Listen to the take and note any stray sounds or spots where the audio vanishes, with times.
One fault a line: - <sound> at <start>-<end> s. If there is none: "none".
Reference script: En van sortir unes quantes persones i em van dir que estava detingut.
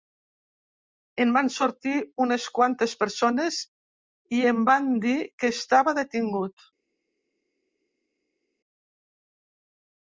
none